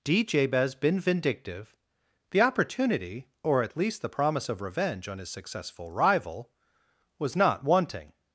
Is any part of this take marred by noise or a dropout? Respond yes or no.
no